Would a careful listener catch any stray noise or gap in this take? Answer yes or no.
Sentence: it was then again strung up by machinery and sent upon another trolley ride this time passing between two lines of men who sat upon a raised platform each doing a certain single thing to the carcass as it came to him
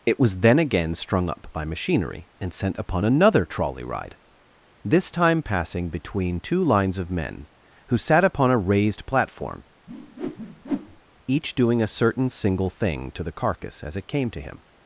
yes